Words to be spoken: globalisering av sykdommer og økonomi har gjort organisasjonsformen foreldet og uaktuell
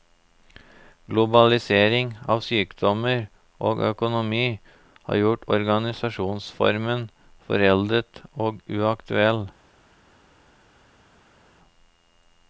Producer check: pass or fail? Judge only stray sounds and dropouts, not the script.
pass